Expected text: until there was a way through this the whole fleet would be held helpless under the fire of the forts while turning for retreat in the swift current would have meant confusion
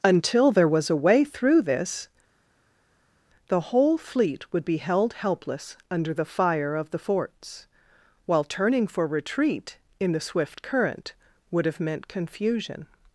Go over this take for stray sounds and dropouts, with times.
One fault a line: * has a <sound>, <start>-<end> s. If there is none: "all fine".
all fine